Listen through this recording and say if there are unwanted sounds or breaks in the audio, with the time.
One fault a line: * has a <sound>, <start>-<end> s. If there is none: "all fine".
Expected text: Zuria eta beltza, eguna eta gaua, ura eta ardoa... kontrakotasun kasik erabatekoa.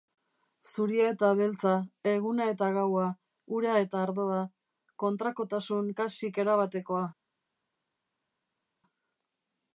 all fine